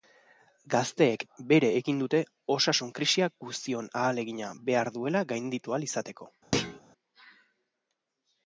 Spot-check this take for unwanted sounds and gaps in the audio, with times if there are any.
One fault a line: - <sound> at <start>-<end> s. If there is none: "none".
- thud at 6.5-6.8 s